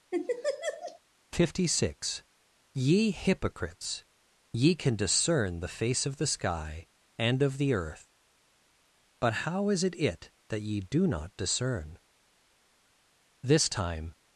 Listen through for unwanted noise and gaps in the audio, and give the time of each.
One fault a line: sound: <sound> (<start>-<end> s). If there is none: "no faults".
sound: laugh (0.1-1.0 s)